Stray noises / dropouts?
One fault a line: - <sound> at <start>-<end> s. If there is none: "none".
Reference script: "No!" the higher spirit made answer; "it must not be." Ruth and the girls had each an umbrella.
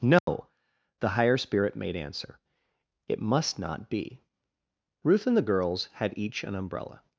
- dropout at 0.2-0.3 s